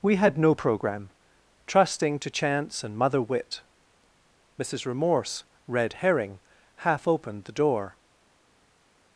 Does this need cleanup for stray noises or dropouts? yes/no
no